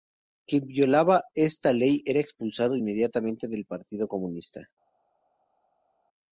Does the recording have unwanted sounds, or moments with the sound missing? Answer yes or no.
no